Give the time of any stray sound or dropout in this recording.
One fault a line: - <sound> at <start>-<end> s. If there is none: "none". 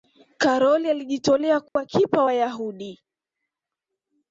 - dropout at 1.7-1.8 s